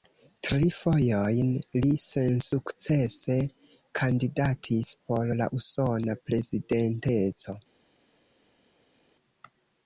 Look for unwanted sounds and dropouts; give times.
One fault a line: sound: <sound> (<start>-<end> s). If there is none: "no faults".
no faults